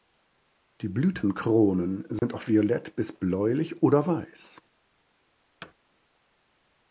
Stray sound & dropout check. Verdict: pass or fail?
fail